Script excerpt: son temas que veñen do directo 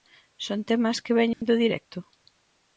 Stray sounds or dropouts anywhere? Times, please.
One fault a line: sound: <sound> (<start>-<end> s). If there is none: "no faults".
sound: dropout (1.3-1.4 s)